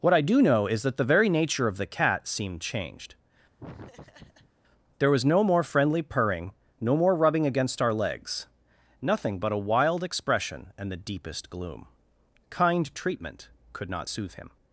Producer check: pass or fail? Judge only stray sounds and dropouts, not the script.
fail